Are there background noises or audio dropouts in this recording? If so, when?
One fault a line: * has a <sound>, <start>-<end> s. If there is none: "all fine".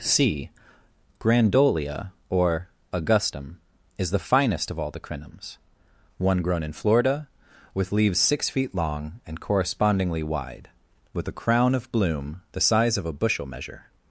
all fine